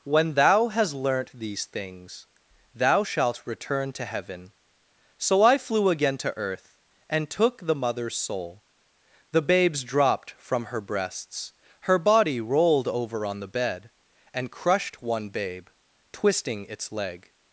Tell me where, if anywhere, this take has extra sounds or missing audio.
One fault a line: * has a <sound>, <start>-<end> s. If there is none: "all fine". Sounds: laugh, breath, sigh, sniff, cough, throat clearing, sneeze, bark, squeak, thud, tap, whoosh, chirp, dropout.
all fine